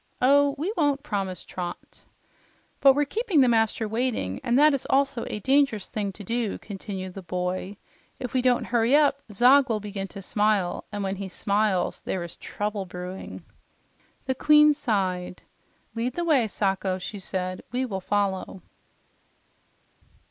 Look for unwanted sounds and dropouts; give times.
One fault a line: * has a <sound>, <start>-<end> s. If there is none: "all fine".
all fine